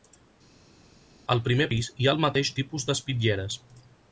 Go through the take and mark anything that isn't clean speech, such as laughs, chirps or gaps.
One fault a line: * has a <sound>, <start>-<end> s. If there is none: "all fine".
all fine